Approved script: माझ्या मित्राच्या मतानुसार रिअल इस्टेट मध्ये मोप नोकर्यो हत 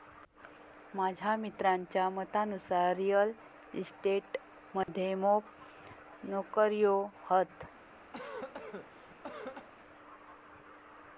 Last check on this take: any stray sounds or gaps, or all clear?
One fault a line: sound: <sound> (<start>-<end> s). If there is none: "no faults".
sound: dropout (4.8-4.9 s)
sound: cough (8.1-9.7 s)